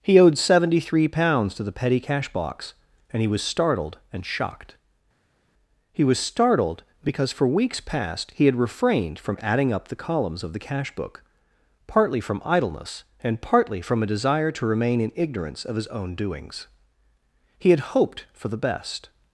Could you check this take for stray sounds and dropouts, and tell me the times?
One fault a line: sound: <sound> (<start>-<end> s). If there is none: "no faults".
no faults